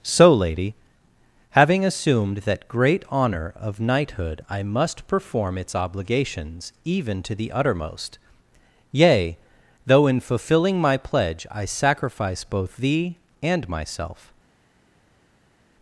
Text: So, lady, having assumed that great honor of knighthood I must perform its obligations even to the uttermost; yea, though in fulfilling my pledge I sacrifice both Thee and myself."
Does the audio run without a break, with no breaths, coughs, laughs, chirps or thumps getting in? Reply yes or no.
yes